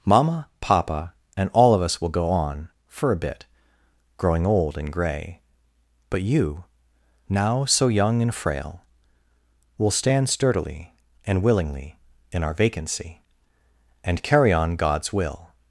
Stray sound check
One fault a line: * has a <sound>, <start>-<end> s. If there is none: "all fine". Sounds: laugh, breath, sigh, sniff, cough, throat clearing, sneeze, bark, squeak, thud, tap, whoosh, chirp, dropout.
all fine